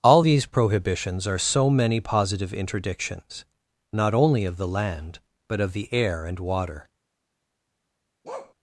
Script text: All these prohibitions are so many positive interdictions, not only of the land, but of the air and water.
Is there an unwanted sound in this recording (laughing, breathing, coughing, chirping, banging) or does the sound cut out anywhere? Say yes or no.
yes